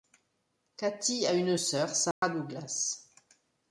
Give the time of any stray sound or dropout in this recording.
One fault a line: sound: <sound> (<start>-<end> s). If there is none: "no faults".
sound: dropout (2.1-2.2 s)